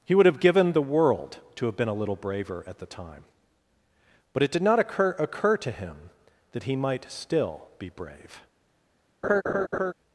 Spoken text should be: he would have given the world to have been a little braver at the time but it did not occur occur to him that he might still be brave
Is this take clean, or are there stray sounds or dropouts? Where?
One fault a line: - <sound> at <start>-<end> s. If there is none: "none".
- laugh at 9.2-9.9 s